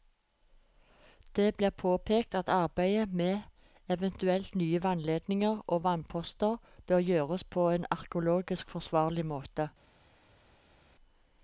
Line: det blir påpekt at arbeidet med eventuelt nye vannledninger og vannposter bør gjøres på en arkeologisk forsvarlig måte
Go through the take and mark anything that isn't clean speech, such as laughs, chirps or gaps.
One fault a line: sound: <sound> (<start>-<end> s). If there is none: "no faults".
no faults